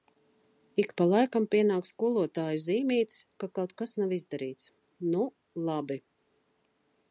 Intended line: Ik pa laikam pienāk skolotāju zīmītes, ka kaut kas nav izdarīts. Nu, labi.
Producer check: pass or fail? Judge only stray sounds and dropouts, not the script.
pass